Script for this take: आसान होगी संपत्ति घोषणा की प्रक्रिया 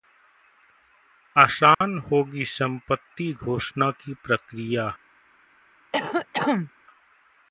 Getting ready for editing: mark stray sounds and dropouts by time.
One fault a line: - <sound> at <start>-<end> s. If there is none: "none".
- dropout at 1.7-1.8 s
- cough at 5.9-6.7 s